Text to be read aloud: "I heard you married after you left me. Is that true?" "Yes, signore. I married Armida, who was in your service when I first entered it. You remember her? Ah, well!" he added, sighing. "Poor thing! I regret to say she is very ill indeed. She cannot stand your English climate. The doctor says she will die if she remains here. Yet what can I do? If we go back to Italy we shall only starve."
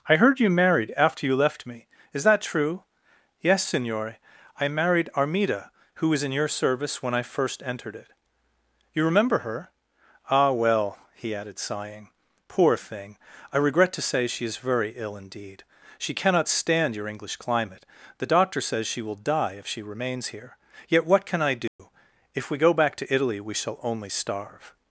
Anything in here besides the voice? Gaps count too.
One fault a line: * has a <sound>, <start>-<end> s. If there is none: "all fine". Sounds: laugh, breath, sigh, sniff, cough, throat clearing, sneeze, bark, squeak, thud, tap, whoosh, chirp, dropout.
* has a dropout, 21.7-21.8 s